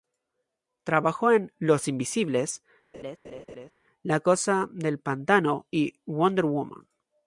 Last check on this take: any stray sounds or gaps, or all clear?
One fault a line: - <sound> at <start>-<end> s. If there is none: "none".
- laugh at 2.9-3.7 s